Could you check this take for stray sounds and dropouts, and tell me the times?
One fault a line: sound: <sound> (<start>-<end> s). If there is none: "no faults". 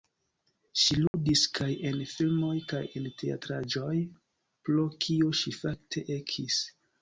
sound: dropout (1.1-1.1 s)